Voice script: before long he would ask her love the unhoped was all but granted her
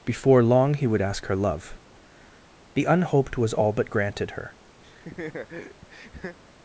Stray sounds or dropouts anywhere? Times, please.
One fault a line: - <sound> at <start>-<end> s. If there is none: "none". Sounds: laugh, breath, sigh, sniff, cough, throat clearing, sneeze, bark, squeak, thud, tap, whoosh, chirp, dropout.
- laugh at 4.8-6.4 s